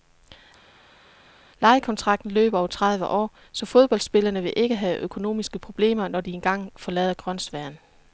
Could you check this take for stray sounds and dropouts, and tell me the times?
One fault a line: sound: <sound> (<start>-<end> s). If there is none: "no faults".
no faults